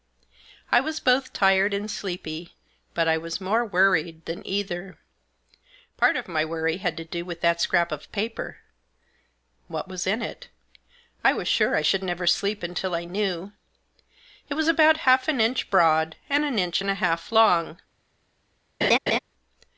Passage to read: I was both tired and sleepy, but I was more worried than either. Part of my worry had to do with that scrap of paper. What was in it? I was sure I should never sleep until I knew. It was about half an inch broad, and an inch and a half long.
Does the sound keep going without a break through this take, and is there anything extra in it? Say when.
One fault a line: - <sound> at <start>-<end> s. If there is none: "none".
- laugh at 18.8-19.2 s